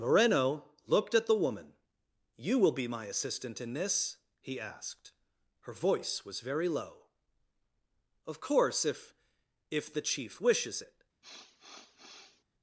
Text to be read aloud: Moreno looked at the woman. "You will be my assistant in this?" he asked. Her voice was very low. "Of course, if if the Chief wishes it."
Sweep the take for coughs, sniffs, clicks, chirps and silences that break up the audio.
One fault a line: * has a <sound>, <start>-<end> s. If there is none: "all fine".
* has a sniff, 11.2-12.4 s